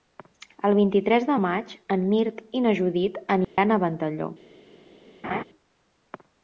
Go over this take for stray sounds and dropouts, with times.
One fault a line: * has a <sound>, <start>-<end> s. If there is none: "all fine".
* has a dropout, 3.4-3.6 s
* has a laugh, 5.2-5.4 s